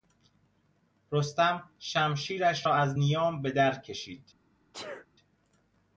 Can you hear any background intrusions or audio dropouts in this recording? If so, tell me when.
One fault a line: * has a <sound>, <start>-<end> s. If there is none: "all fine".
* has a sneeze, 4.7-5.1 s